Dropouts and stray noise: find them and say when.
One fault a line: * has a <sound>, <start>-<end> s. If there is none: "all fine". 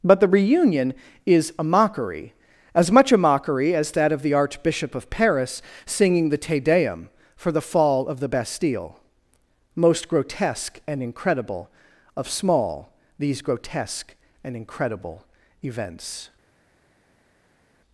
all fine